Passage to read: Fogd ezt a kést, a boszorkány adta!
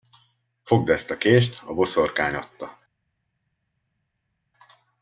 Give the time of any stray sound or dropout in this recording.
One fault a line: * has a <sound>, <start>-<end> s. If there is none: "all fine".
all fine